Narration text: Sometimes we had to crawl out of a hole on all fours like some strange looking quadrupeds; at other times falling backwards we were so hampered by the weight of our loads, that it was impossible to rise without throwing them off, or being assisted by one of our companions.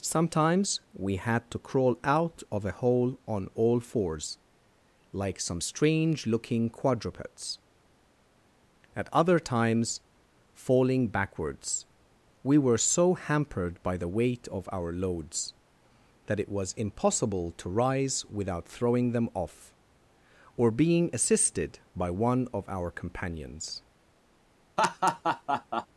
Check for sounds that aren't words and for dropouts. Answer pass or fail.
fail